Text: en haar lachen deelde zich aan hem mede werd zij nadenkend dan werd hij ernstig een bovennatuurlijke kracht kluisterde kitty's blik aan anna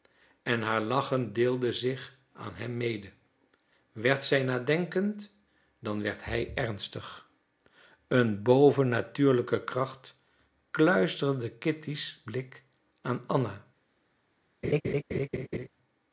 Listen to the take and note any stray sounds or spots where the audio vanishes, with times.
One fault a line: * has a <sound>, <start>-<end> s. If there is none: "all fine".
* has a laugh, 14.6-15.7 s